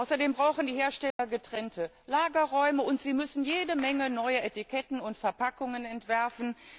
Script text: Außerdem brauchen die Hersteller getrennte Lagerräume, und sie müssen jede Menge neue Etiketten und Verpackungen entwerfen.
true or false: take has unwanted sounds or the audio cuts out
true